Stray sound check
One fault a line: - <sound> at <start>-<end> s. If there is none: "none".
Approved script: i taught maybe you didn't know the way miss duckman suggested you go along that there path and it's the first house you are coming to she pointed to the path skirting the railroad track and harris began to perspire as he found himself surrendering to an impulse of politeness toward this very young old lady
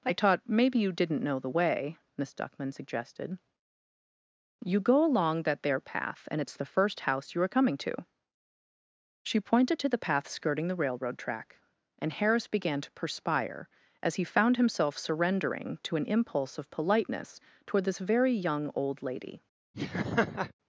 - laugh at 19.7-20.5 s